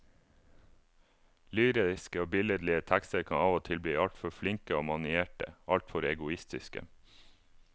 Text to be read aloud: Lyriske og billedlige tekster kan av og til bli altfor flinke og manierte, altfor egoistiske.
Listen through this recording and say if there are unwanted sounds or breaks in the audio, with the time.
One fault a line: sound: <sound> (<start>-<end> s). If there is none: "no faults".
no faults